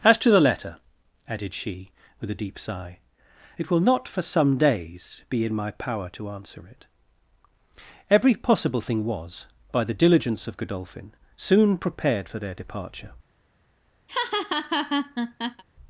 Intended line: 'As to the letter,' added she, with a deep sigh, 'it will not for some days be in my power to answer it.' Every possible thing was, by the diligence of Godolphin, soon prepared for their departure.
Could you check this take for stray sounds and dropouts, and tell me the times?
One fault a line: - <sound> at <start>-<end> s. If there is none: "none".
- laugh at 14.1-15.6 s